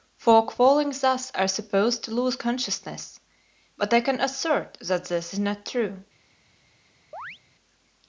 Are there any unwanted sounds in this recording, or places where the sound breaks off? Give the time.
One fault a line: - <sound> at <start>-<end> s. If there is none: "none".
- chirp at 7.1-7.4 s